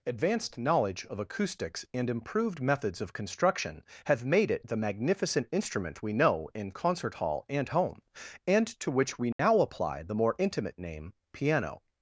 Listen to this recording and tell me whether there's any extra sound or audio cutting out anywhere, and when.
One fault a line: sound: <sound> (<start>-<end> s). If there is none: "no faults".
sound: dropout (9.3-9.4 s)